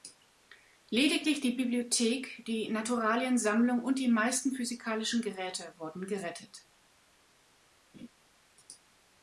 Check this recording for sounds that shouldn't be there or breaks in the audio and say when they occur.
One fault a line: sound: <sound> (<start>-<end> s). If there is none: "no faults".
sound: laugh (7.9-8.1 s)